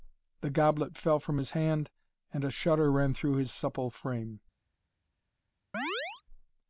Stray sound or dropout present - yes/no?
yes